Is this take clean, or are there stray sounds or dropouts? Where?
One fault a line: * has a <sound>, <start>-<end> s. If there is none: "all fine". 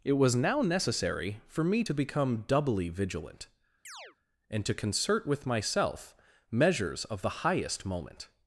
* has a chirp, 3.8-4.2 s